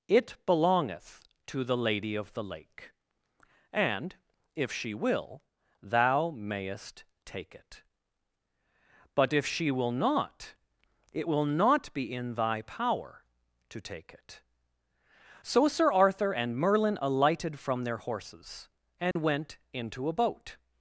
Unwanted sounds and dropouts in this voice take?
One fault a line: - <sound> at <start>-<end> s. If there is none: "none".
- dropout at 19.1-19.2 s